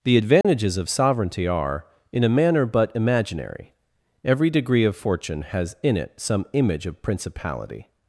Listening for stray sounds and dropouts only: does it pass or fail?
fail